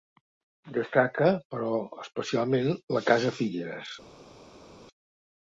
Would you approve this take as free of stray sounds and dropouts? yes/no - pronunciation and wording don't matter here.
yes